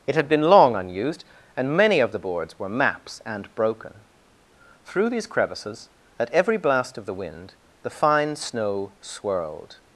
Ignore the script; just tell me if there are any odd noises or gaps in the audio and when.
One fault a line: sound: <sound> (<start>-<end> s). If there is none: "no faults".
no faults